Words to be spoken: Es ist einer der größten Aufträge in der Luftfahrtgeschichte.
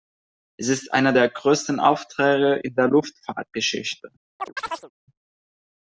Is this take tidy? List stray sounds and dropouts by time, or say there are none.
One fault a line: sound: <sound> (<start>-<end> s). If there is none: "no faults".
sound: chirp (4.4-4.9 s)